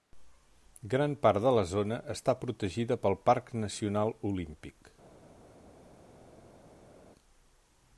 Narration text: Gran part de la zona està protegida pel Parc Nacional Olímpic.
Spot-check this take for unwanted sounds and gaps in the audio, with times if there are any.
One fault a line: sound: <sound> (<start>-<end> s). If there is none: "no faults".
no faults